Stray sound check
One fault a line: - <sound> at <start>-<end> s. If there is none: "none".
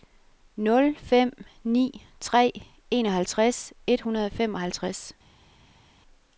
none